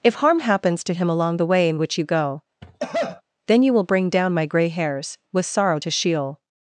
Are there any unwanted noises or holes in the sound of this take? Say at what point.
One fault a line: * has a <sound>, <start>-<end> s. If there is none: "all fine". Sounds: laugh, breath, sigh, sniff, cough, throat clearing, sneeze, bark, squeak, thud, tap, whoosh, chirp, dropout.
* has a cough, 2.6-3.2 s